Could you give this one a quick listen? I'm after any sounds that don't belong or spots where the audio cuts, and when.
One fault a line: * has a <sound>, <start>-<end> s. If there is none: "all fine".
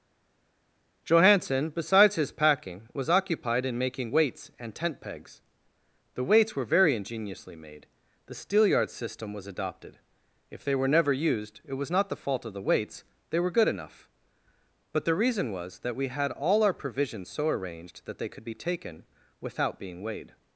all fine